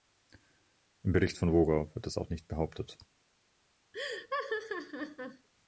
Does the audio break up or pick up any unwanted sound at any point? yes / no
yes